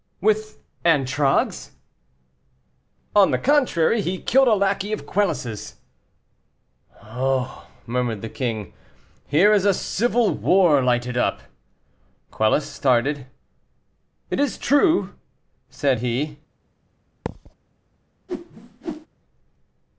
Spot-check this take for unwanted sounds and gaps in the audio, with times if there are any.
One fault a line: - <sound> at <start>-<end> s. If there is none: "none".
- thud at 17.3-17.5 s
- whoosh at 18.3-19.1 s